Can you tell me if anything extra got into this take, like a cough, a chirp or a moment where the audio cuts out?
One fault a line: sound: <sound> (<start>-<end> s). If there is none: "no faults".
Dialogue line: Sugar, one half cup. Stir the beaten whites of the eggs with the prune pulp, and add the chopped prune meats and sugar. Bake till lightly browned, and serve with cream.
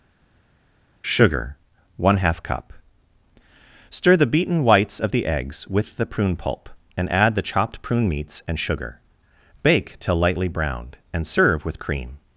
no faults